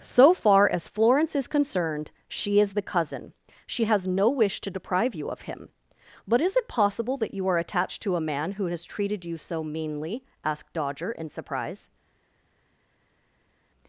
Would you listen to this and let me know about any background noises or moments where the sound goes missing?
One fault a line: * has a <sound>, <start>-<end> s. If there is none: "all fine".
all fine